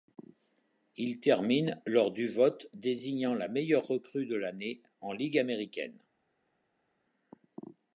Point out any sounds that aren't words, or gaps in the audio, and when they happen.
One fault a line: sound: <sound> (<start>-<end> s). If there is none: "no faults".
no faults